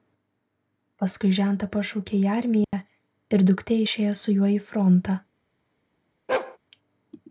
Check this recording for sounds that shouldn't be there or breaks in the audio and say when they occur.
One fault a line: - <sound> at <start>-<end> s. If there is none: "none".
- dropout at 2.6-2.7 s
- bark at 6.3-6.6 s